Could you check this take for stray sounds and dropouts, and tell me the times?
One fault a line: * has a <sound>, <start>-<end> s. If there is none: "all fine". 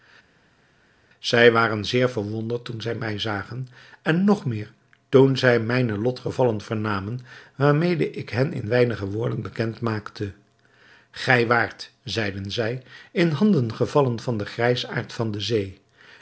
all fine